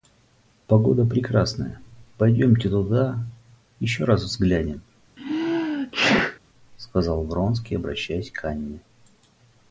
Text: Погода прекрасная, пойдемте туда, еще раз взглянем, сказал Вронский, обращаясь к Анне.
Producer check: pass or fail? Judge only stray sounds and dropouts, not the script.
fail